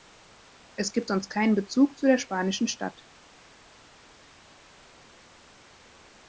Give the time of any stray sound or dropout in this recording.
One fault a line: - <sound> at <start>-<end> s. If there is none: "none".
none